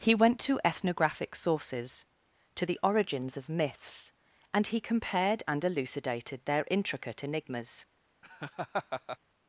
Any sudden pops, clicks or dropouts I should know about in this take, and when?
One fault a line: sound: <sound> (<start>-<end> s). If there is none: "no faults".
sound: laugh (8.2-9.2 s)